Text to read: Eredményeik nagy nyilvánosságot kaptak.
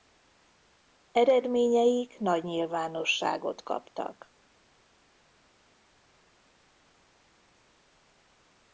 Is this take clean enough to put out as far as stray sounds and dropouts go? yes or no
yes